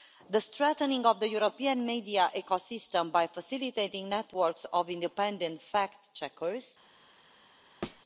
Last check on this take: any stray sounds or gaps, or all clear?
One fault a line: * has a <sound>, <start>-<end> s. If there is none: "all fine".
* has a thud, 7.8-8.0 s